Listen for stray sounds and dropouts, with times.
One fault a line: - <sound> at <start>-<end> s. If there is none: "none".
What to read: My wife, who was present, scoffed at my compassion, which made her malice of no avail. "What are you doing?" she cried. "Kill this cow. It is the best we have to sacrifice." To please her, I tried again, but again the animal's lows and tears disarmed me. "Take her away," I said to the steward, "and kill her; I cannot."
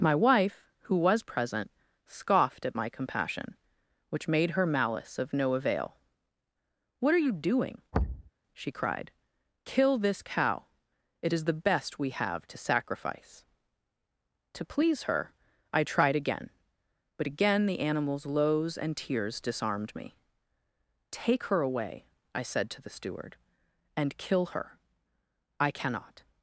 - thud at 7.9-8.3 s